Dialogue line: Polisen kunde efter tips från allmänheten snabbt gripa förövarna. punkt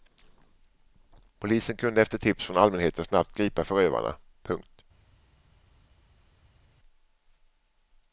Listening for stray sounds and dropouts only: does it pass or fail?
pass